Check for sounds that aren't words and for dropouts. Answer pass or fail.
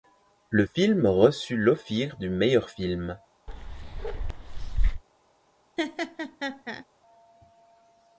fail